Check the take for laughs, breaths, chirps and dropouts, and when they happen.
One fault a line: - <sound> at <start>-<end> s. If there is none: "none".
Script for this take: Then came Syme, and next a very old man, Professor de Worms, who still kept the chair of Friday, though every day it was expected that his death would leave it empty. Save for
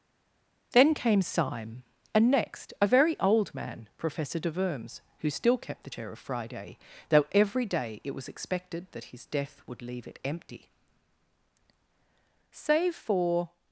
none